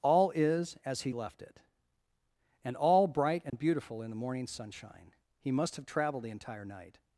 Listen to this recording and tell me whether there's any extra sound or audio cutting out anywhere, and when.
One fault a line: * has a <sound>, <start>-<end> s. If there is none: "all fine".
* has a dropout, 3.5-3.5 s